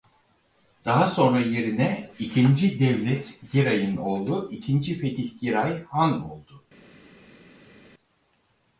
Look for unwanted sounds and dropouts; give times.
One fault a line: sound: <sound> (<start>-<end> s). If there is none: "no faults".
no faults